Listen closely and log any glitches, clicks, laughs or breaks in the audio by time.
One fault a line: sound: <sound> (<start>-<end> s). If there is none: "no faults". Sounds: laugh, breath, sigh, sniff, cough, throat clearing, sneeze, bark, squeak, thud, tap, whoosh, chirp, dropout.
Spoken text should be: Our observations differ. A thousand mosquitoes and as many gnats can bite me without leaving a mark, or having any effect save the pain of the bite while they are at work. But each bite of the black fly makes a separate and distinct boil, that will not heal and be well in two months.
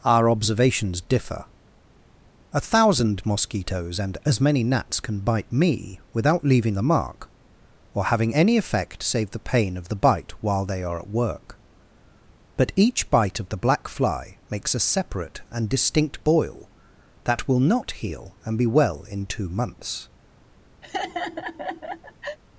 sound: laugh (20.8-22.4 s)